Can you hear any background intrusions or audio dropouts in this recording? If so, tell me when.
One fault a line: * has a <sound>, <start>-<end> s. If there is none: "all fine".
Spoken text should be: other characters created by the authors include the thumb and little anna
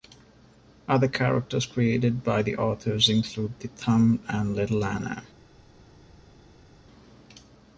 all fine